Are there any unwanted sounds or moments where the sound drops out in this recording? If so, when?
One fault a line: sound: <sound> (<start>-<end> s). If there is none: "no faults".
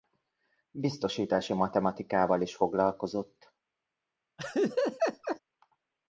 sound: laugh (4.4-5.4 s)